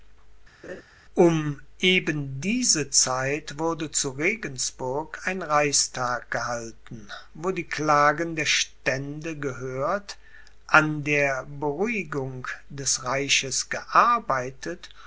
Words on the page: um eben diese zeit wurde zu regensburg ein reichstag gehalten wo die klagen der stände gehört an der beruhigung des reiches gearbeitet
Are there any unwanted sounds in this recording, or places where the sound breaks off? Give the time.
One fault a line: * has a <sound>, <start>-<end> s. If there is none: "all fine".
* has a laugh, 0.6-0.8 s